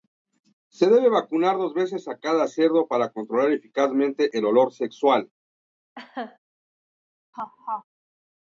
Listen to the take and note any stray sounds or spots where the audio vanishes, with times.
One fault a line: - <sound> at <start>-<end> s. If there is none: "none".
- laugh at 6.0-6.4 s
- laugh at 7.3-7.8 s